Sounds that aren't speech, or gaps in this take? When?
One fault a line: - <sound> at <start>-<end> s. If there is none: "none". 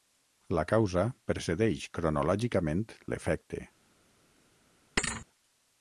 - thud at 5.0-5.3 s